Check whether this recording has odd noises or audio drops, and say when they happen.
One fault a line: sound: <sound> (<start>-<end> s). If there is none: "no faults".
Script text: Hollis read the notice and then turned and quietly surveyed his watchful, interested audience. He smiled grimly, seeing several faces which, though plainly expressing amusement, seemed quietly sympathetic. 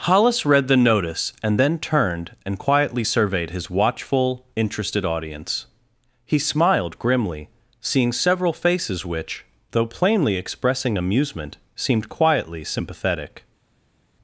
no faults